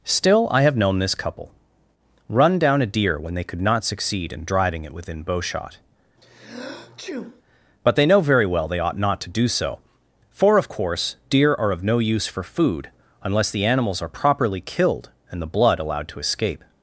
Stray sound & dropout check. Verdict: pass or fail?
fail